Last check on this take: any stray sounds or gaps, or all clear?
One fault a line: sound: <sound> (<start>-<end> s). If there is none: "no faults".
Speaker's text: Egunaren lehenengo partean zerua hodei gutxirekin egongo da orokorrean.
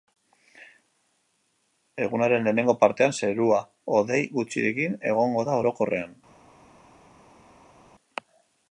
no faults